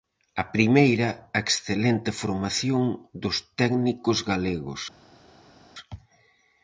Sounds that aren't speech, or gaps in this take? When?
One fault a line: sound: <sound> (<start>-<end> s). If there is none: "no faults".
no faults